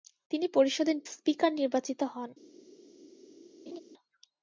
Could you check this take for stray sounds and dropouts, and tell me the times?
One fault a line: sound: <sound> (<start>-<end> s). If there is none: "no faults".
sound: laugh (3.7-3.8 s)